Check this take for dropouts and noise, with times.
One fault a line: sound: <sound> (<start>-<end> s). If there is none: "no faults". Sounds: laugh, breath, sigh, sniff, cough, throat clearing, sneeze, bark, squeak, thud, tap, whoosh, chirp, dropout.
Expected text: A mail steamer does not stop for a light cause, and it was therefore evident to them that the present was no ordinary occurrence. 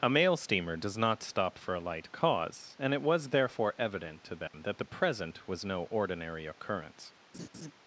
sound: dropout (4.5-4.5 s)
sound: laugh (7.3-7.7 s)